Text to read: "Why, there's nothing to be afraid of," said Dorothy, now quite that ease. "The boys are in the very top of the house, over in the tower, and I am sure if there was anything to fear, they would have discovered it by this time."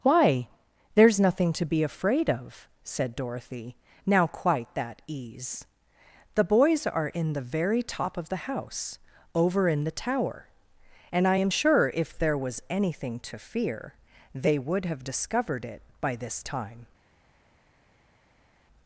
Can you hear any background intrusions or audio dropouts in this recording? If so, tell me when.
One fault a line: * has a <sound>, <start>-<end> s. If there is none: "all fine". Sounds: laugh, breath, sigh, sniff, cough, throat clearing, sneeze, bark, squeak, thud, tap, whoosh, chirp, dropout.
all fine